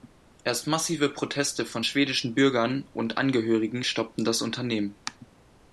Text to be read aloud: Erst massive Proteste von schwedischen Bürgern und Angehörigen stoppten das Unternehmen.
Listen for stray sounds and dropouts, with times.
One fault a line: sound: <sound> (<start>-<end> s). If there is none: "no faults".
no faults